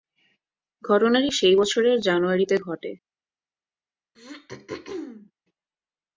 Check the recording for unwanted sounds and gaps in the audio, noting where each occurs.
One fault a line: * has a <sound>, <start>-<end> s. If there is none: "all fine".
* has a throat clearing, 4.1-5.3 s